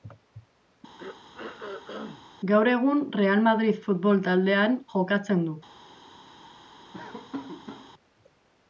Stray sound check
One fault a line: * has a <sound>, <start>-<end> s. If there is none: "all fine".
* has a throat clearing, 1.0-2.2 s
* has a laugh, 6.9-7.9 s